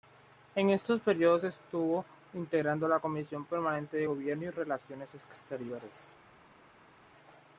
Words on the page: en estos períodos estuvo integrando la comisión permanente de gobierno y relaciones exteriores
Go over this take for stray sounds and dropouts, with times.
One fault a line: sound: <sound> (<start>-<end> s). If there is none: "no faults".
no faults